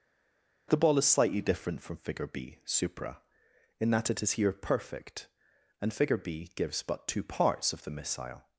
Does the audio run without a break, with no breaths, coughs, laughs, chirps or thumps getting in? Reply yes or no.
yes